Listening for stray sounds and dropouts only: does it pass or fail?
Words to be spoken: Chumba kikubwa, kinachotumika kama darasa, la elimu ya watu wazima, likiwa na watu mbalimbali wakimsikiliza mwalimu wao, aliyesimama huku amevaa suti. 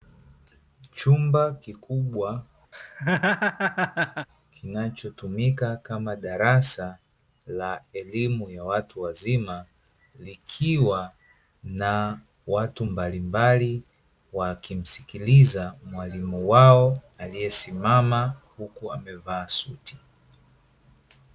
fail